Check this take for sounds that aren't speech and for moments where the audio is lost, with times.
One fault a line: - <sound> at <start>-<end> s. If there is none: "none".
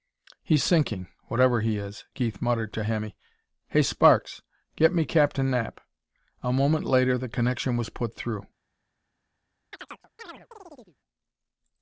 - chirp at 9.7-11.0 s